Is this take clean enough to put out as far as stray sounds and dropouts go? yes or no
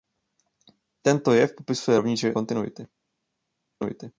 yes